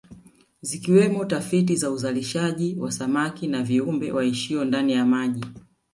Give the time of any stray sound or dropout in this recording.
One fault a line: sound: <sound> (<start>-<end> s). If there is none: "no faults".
no faults